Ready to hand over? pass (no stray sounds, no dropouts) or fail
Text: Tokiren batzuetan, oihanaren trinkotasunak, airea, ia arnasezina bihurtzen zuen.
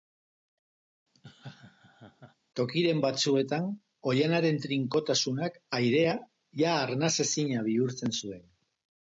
fail